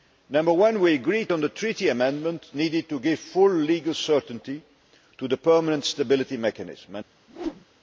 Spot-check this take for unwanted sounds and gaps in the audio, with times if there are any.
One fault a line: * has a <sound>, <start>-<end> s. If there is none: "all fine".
* has a whoosh, 7.3-7.6 s